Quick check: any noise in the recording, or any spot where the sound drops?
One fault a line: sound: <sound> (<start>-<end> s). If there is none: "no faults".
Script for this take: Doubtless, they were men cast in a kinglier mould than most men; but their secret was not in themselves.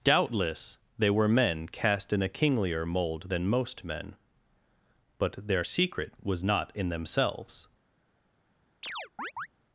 sound: chirp (8.8-9.5 s)